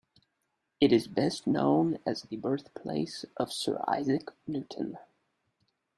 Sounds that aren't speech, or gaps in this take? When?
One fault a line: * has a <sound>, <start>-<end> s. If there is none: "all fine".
all fine